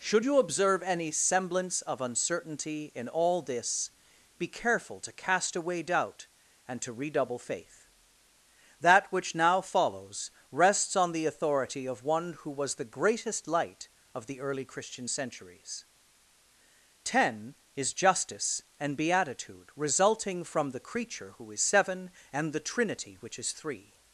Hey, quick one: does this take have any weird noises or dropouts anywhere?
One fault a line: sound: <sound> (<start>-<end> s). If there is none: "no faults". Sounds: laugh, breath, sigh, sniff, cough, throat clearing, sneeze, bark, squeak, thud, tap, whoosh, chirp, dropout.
no faults